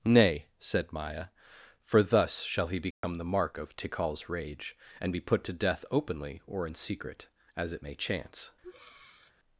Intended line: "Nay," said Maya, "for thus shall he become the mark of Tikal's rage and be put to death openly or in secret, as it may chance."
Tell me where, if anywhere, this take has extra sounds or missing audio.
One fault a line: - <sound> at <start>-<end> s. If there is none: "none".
- dropout at 2.9-3.0 s
- breath at 8.6-9.3 s